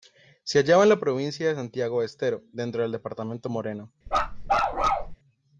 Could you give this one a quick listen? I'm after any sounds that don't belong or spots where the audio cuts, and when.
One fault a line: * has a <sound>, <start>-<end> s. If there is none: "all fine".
* has a bark, 4.1-5.2 s